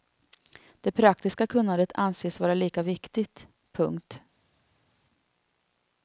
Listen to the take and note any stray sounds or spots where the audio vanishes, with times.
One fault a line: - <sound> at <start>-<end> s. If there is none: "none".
none